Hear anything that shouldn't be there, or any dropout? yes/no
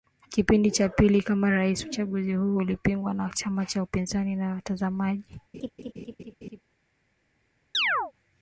yes